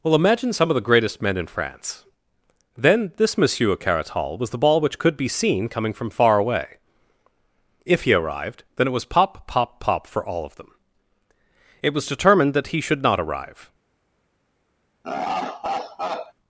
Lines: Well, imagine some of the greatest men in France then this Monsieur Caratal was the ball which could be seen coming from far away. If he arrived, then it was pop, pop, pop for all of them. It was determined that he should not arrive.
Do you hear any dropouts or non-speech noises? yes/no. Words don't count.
yes